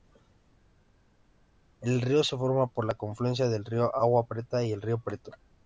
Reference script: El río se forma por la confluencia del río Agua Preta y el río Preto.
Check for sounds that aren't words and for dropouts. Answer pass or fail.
pass